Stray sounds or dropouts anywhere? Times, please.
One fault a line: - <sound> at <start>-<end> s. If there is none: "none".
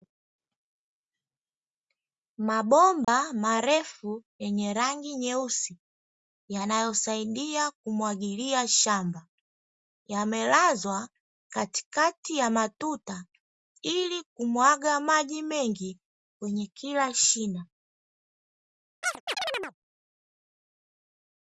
- dropout at 3.0-3.1 s
- chirp at 19.0-19.7 s